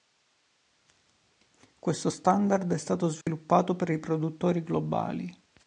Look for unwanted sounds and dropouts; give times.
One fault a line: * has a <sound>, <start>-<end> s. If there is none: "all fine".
* has a dropout, 3.2-3.3 s